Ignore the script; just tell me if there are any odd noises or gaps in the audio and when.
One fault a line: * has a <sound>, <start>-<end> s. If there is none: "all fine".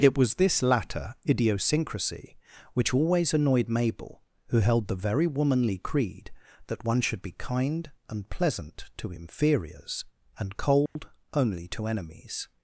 * has a dropout, 10.9-11.0 s